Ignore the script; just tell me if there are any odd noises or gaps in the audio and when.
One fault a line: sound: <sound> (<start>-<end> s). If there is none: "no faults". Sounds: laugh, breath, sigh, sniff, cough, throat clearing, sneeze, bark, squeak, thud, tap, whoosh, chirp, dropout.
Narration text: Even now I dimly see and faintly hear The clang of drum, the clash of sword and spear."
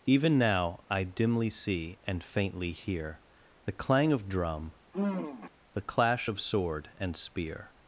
sound: sigh (4.9-5.5 s)